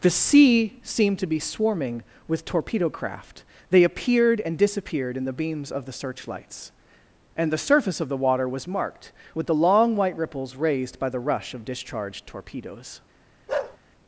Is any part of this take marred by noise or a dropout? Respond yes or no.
yes